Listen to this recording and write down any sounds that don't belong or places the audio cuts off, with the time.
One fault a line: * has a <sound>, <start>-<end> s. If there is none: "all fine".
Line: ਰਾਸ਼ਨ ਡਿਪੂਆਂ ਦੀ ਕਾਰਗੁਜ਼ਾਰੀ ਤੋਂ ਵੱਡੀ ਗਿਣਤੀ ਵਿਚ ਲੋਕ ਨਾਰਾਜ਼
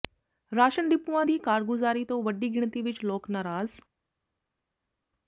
all fine